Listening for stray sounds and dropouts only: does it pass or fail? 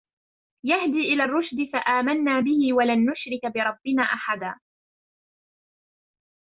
pass